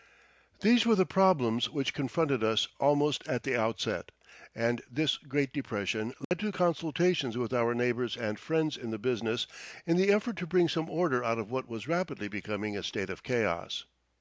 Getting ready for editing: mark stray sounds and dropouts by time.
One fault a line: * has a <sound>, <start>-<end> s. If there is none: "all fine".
* has a dropout, 6.2-6.3 s